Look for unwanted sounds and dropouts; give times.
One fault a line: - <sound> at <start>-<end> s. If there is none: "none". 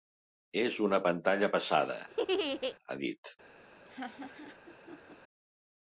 - laugh at 2.1-2.8 s
- laugh at 3.9-5.2 s